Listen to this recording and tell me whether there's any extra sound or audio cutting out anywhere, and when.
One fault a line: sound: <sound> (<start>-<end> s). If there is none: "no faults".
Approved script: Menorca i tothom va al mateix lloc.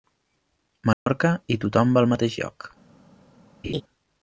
sound: dropout (0.9-1.1 s)
sound: laugh (3.6-3.8 s)